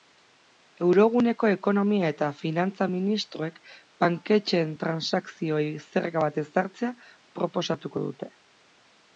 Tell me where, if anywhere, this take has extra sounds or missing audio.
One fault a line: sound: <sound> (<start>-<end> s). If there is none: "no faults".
no faults